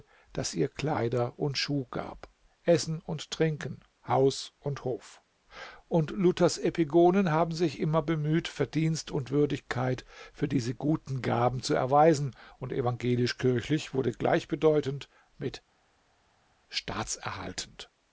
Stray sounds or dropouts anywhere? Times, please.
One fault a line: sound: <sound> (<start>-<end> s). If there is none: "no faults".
no faults